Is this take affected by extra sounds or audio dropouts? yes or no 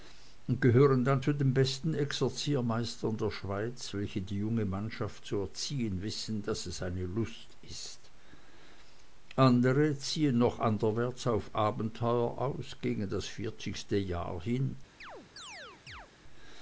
yes